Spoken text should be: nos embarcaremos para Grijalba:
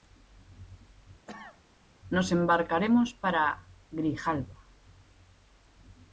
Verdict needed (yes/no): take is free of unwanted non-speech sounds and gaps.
no